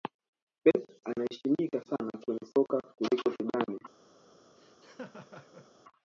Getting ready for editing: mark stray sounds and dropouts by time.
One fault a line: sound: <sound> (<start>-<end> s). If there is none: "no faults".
sound: laugh (4.6-5.7 s)